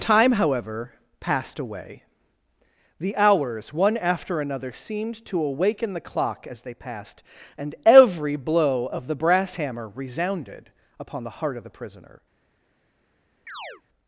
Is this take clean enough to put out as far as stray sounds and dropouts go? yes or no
no